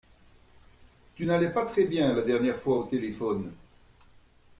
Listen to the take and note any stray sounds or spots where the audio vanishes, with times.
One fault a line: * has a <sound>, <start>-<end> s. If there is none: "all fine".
all fine